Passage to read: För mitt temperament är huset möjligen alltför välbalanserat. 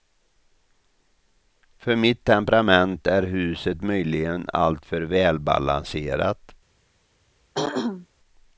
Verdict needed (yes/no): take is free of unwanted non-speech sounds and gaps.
no